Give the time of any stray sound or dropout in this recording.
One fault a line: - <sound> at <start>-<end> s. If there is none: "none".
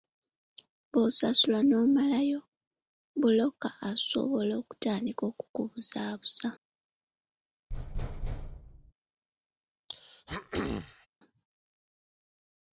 - thud at 7.7-8.9 s
- throat clearing at 9.9-11.1 s